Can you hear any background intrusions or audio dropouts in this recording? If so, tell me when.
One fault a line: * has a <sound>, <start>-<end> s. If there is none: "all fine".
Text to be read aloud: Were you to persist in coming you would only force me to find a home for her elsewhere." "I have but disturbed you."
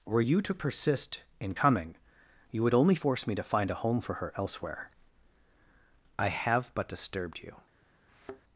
* has a thud, 8.1-8.4 s